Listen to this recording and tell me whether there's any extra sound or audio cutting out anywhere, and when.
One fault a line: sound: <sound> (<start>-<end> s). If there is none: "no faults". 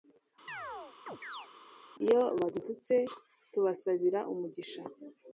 sound: chirp (0.5-1.5 s)